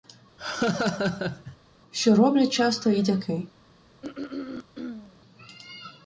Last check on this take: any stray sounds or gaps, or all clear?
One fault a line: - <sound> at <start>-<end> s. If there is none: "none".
- laugh at 0.4-1.6 s
- throat clearing at 4.0-5.2 s